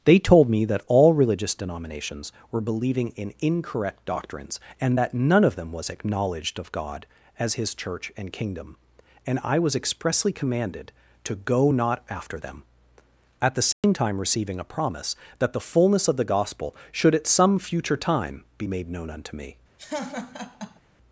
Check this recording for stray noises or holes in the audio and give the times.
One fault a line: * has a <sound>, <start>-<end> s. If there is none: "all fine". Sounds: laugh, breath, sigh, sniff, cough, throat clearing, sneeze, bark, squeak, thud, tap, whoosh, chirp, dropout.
* has a dropout, 13.7-13.8 s
* has a laugh, 19.8-20.8 s